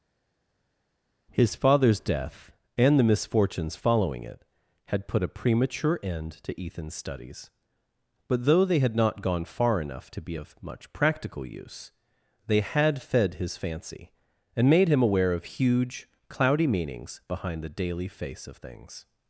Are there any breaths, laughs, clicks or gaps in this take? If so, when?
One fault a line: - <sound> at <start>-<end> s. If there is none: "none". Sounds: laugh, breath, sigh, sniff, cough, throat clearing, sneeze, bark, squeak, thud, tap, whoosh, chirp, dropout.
none